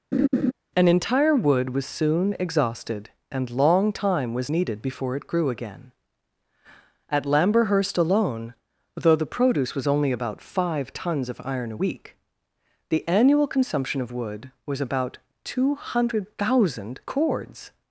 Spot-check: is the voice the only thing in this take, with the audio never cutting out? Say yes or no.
no